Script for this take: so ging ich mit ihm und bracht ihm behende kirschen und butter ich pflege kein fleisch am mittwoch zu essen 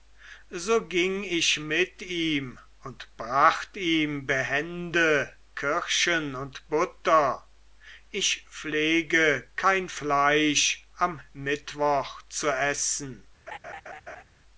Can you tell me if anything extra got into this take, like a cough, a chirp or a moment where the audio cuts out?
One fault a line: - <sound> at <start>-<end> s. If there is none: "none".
- laugh at 13.5-14.2 s